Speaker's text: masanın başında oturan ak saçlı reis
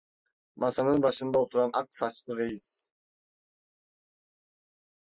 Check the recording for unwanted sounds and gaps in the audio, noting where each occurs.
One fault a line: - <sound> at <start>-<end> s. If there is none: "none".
none